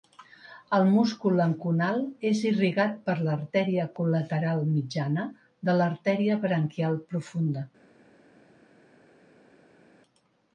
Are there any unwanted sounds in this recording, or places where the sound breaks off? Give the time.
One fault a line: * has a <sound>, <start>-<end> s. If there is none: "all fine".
all fine